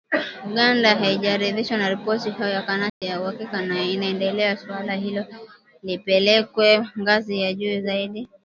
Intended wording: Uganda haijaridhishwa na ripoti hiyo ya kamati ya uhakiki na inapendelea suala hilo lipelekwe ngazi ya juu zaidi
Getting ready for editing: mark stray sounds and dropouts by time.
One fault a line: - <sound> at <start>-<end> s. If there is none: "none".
- dropout at 2.9-3.0 s